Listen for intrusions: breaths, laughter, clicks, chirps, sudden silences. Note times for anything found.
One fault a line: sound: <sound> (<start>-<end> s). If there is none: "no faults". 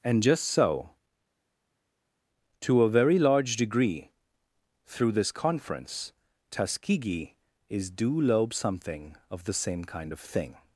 no faults